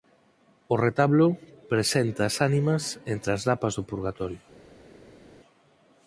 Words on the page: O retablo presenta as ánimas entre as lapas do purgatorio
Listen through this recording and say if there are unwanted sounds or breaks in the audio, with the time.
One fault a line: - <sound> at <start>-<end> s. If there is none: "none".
none